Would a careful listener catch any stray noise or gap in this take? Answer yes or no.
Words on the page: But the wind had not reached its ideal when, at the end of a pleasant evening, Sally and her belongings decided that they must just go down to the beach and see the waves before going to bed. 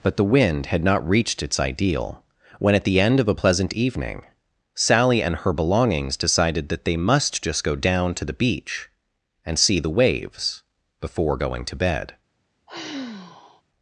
yes